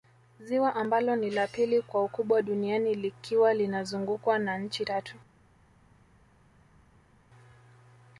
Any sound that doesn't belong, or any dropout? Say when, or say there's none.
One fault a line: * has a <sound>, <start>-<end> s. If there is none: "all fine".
all fine